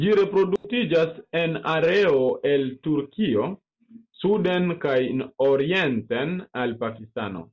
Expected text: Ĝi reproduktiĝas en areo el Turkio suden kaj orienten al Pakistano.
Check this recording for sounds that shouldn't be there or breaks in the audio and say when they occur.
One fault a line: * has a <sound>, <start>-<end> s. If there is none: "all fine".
* has a dropout, 0.6-0.6 s